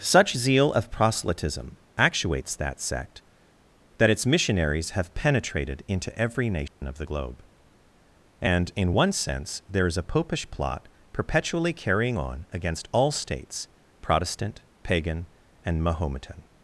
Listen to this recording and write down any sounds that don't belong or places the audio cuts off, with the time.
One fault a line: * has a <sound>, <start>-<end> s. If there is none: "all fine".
* has a dropout, 6.7-6.8 s